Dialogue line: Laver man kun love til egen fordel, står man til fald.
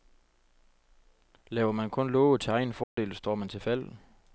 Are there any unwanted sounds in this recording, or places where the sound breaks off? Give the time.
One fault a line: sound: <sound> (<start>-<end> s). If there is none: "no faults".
sound: dropout (2.8-3.0 s)